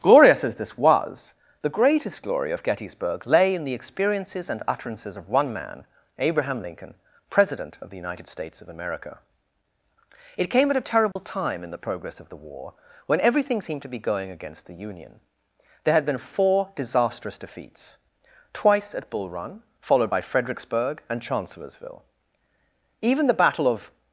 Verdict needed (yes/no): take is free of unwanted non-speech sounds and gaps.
no